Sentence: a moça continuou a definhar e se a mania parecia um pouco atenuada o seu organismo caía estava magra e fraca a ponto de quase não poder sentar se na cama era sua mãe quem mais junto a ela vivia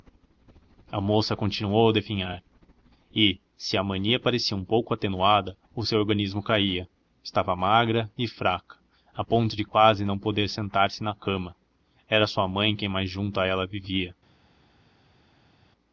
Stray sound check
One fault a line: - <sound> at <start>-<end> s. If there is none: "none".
none